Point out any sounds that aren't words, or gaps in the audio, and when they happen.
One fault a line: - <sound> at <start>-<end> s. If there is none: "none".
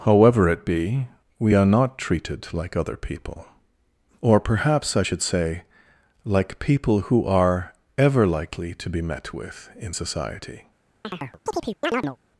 - chirp at 11.0-12.2 s